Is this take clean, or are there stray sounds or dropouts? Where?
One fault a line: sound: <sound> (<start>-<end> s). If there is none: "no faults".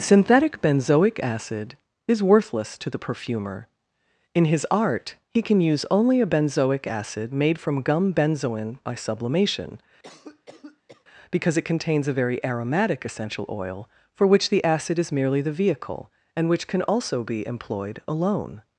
sound: cough (10.0-11.0 s)